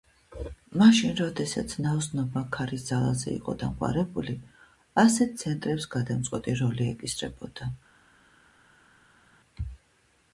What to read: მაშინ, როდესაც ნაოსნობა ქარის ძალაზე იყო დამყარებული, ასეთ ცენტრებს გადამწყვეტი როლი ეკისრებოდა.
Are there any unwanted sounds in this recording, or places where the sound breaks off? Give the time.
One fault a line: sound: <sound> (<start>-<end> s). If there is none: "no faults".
no faults